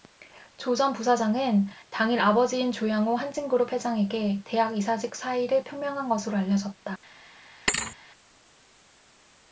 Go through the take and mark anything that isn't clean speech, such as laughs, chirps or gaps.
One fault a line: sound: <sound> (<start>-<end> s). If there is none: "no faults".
sound: thud (7.7-8.0 s)